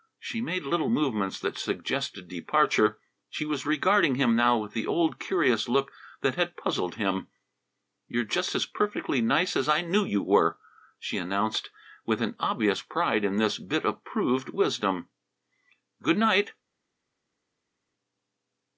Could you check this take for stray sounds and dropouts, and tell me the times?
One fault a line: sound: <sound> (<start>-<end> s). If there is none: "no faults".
no faults